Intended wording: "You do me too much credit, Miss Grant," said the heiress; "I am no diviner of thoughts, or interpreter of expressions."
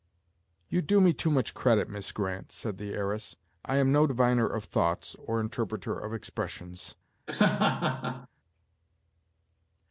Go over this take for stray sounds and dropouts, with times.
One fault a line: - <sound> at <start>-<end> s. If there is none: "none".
- laugh at 7.3-8.3 s